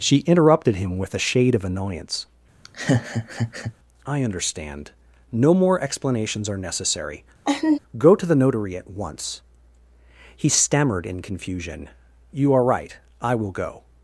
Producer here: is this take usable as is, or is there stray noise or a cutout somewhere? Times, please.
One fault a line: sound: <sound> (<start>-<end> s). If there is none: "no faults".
sound: laugh (2.6-3.7 s)
sound: laugh (7.4-7.8 s)